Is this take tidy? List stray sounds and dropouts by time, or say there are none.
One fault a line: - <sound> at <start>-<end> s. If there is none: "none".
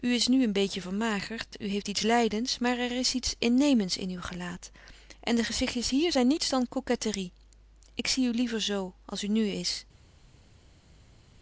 none